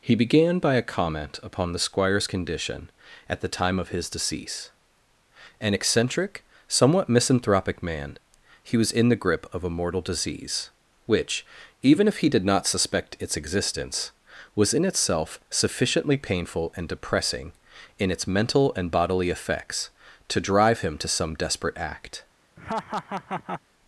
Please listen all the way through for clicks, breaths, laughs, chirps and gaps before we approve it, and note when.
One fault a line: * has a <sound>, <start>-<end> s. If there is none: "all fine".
* has a laugh, 22.6-23.6 s